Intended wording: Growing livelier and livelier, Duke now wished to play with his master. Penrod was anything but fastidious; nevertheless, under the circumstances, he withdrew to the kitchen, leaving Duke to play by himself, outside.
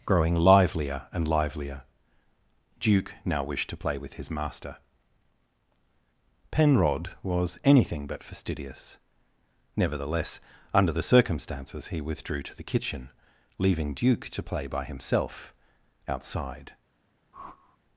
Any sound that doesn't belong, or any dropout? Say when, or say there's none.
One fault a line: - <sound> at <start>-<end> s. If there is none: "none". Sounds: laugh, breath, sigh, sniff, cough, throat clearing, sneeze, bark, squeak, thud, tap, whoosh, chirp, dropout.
- whoosh at 17.3-17.8 s